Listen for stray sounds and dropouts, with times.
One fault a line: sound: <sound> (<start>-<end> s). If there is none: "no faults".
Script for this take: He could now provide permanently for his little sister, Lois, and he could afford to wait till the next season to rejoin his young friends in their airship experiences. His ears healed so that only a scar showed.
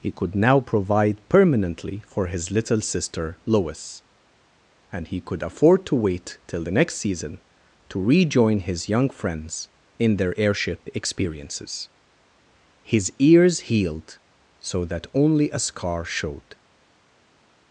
no faults